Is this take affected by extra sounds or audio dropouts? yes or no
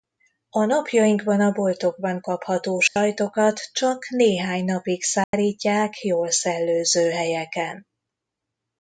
yes